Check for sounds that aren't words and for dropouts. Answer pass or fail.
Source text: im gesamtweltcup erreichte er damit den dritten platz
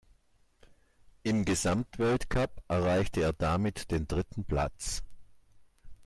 pass